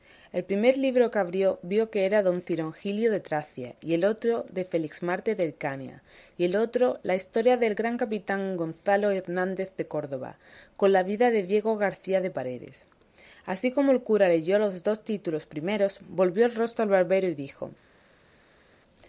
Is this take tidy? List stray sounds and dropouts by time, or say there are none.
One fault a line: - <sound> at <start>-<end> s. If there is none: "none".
none